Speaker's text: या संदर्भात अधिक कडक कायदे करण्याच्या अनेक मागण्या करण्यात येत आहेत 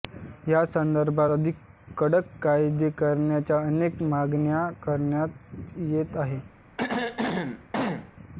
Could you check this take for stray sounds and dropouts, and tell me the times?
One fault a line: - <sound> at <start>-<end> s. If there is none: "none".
- throat clearing at 6.8-8.1 s